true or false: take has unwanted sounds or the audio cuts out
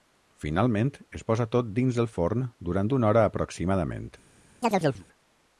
true